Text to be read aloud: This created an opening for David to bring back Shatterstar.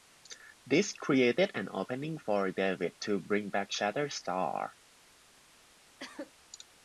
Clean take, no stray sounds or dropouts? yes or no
no